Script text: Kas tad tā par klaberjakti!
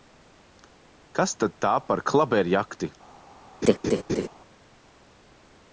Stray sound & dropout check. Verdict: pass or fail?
fail